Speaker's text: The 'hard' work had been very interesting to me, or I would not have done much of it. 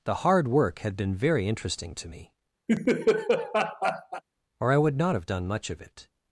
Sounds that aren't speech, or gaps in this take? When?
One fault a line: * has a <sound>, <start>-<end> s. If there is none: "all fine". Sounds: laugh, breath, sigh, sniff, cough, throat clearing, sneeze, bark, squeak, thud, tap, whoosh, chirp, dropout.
* has a laugh, 2.7-4.2 s